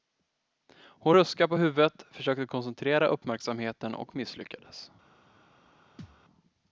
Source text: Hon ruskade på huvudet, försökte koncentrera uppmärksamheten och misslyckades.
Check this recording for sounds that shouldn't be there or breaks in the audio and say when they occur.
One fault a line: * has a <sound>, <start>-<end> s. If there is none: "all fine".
* has a thud, 6.0-6.2 s